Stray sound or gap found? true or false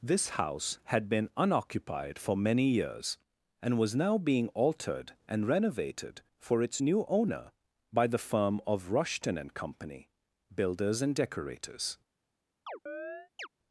true